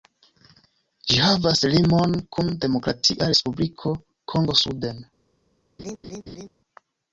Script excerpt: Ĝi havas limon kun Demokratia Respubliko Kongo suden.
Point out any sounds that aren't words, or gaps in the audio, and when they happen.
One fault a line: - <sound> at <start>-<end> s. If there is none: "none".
- laugh at 5.8-6.5 s